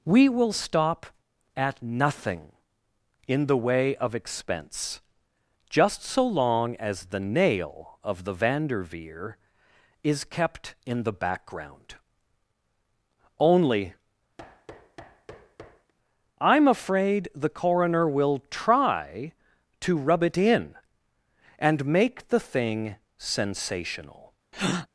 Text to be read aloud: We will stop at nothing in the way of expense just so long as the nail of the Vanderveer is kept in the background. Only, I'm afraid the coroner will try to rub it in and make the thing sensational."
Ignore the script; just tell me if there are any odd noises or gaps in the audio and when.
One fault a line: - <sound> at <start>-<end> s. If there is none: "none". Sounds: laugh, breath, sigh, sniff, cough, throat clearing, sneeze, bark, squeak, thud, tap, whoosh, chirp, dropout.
- thud at 14.4-15.9 s
- breath at 24.5-24.9 s